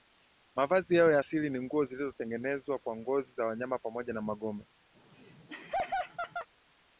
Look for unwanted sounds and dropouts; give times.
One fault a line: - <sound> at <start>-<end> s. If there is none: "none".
- laugh at 4.9-6.5 s